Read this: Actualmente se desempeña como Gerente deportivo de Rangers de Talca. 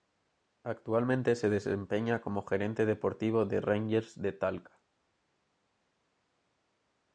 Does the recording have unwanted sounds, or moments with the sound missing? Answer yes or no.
no